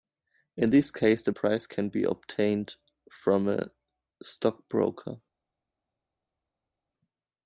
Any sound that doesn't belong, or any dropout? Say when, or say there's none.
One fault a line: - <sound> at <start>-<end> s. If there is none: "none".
none